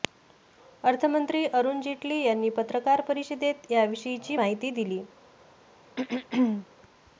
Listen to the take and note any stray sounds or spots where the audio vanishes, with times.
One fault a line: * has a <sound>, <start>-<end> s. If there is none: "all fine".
* has a throat clearing, 6.0-6.7 s